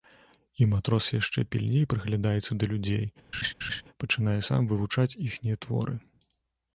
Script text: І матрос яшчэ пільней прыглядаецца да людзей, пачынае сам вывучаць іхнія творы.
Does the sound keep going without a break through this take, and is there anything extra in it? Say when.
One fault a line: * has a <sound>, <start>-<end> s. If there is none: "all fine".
* has a laugh, 3.3-3.8 s